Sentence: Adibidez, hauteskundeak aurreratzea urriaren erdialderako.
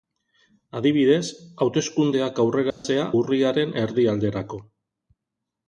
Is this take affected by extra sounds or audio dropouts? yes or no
yes